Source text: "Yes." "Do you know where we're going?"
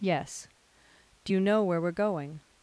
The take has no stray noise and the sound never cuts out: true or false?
true